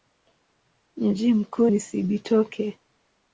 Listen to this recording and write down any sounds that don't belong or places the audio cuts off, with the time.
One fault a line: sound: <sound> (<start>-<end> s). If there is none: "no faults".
no faults